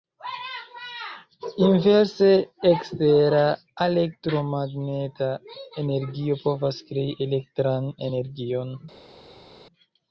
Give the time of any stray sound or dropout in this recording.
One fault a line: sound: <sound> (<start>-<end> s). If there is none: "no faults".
no faults